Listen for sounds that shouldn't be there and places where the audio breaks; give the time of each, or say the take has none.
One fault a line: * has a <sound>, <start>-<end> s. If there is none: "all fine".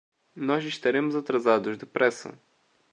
all fine